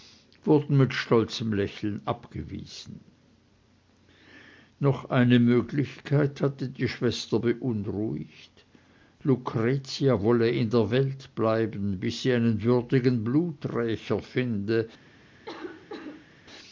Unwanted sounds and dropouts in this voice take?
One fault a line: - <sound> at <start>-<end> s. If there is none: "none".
- cough at 15.5-16.3 s